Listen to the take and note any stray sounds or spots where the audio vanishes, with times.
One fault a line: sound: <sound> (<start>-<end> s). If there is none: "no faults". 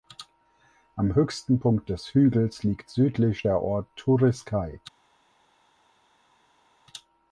no faults